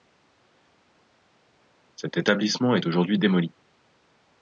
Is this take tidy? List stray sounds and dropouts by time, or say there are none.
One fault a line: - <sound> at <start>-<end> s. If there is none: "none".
none